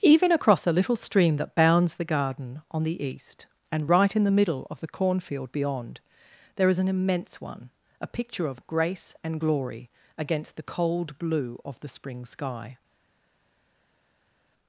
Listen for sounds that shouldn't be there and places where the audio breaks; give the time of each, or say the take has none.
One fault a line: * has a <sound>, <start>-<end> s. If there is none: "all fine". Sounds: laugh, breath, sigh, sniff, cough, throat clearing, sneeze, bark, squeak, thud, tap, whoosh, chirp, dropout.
all fine